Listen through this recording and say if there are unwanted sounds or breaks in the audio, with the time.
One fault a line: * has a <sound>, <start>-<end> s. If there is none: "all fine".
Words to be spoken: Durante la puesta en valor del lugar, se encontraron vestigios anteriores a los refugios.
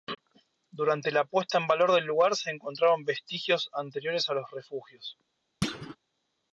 * has a thud, 5.6-6.0 s